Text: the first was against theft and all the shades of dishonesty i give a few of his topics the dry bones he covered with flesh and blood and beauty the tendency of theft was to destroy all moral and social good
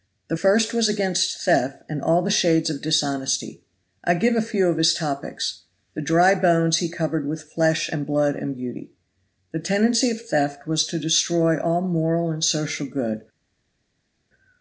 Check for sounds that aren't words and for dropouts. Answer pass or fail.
pass